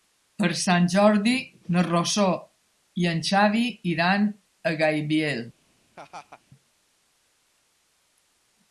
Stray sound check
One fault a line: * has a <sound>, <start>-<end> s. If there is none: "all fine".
* has a laugh, 6.0-6.4 s